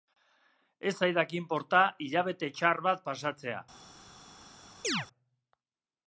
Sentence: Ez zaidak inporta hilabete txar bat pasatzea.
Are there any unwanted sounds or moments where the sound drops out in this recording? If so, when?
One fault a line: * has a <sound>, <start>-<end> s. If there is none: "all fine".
* has a chirp, 4.8-5.1 s